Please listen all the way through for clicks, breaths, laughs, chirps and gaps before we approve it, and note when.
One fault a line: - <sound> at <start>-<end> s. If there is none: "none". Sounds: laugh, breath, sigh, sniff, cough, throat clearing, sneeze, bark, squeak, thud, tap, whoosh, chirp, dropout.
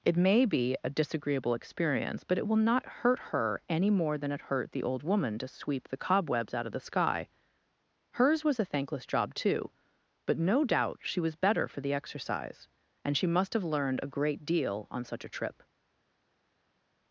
none